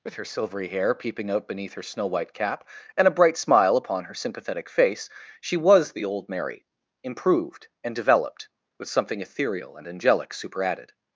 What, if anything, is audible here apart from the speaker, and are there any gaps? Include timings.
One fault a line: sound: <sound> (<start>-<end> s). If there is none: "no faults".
no faults